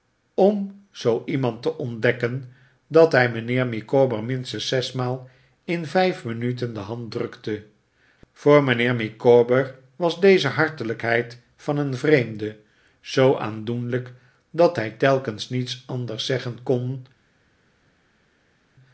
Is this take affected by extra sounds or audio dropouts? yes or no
no